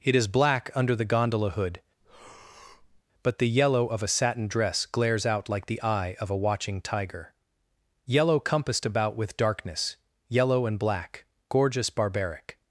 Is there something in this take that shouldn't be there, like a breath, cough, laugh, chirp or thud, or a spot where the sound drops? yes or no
yes